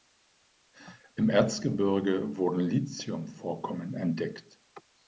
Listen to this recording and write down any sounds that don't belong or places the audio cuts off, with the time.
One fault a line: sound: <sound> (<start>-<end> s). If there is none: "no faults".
no faults